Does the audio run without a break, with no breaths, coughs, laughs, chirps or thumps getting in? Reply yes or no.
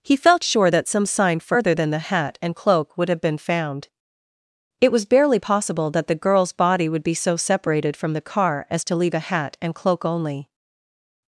yes